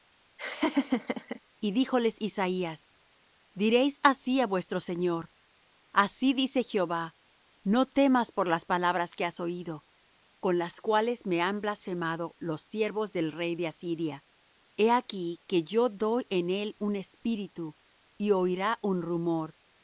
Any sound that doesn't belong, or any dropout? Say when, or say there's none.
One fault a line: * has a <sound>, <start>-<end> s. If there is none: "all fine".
* has a laugh, 0.4-1.4 s